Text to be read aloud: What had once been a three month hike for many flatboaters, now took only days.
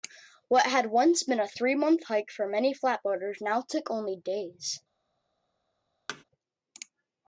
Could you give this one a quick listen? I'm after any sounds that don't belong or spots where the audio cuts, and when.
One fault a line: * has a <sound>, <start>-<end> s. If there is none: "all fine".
* has a thud, 6.1-6.2 s